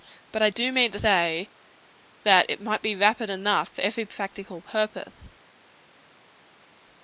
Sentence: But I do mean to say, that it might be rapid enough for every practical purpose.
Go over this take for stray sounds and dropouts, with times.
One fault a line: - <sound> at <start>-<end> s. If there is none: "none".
none